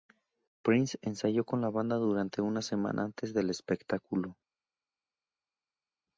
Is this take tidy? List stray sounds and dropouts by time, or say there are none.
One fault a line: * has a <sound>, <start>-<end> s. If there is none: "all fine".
all fine